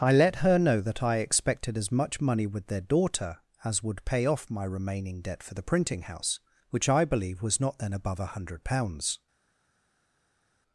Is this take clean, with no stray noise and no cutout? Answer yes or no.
yes